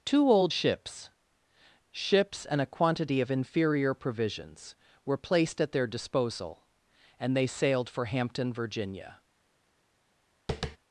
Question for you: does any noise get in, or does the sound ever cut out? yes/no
yes